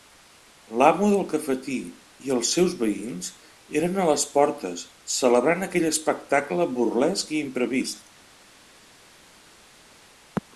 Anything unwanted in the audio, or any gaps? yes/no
no